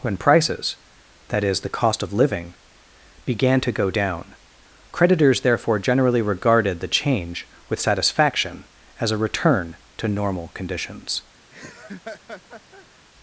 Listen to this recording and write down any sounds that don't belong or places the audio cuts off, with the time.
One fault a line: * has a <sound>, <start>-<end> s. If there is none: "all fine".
* has a laugh, 11.5-12.9 s